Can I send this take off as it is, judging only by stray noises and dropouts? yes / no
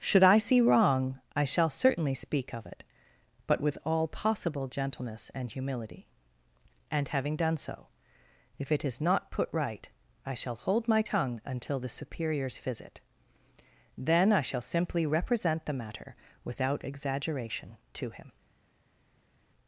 yes